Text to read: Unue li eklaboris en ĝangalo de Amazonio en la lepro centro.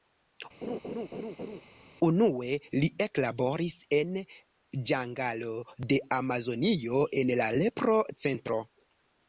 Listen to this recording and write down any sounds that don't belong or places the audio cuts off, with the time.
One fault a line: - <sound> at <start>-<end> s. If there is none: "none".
- laugh at 0.6-1.6 s